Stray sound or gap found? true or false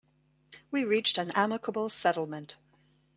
false